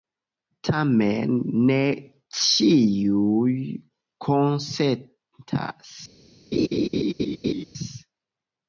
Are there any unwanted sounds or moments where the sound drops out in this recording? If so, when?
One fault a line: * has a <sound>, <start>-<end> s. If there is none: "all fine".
* has a laugh, 6.5-7.6 s